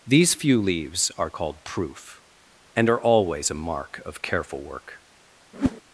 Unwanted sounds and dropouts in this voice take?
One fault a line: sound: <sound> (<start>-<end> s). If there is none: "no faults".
sound: whoosh (5.5-5.8 s)